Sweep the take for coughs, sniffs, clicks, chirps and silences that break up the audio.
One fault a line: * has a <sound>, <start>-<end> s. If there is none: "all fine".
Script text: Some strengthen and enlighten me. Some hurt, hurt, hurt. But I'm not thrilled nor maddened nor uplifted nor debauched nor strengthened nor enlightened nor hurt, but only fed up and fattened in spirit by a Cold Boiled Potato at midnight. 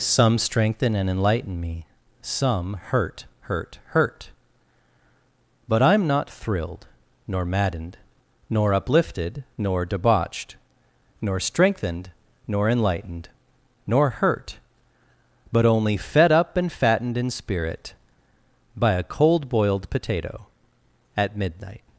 all fine